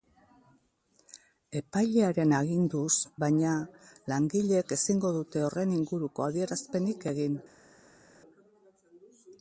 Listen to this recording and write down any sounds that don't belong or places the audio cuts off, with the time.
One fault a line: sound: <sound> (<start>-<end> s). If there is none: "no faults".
no faults